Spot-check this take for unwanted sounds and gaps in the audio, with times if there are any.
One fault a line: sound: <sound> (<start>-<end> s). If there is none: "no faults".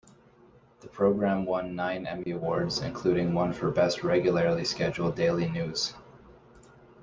sound: dropout (2.2-2.3 s)